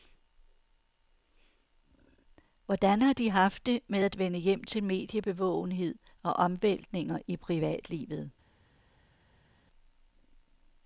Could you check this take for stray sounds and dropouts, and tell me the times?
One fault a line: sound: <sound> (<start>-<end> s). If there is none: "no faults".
no faults